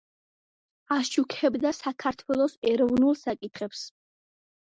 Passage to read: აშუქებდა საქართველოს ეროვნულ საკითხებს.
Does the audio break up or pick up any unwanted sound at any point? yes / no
no